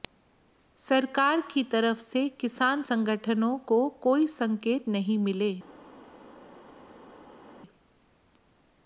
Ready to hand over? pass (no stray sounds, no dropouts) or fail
pass